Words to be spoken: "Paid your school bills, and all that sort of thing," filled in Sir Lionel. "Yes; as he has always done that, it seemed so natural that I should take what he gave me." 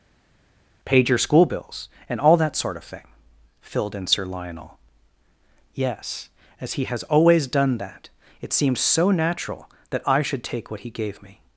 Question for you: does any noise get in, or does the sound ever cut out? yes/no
no